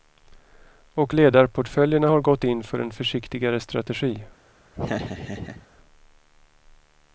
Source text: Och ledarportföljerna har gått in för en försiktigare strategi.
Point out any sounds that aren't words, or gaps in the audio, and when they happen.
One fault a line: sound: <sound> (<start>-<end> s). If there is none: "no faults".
sound: laugh (4.7-5.7 s)